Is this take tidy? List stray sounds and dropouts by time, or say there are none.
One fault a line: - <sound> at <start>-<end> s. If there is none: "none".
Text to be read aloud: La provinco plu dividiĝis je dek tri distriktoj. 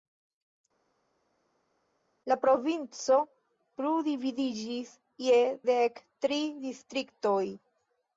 none